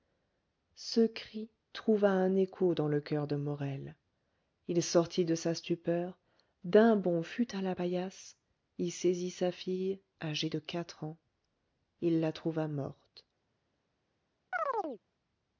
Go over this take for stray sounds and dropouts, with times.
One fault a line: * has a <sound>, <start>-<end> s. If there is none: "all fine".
* has a chirp, 14.5-15.0 s